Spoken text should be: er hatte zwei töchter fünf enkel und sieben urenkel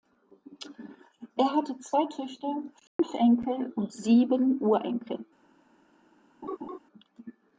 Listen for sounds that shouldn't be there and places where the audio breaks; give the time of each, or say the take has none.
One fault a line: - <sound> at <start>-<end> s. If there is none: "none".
- dropout at 2.9-3.0 s
- laugh at 6.4-6.8 s